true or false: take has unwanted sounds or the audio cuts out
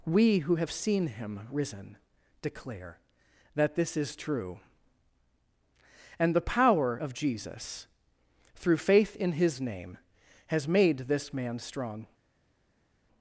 false